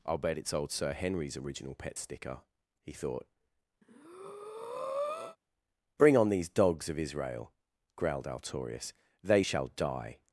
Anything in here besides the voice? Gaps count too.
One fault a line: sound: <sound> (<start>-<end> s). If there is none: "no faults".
sound: breath (3.8-5.4 s)